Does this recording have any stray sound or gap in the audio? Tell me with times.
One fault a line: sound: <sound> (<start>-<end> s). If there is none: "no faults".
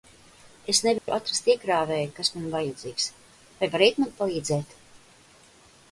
sound: dropout (1.0-1.1 s)